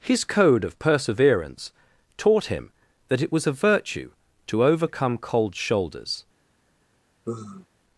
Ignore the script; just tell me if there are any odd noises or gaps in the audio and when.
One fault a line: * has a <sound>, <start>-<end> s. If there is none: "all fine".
* has a sigh, 7.2-7.7 s